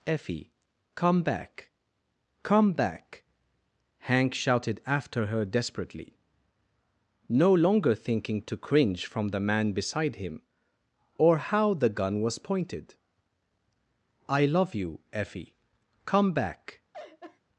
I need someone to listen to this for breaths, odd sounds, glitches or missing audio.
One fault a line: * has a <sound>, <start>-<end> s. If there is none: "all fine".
* has a laugh, 16.9-17.4 s